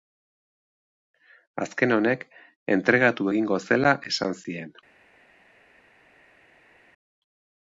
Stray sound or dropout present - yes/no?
no